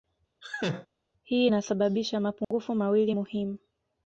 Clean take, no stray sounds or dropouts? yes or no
no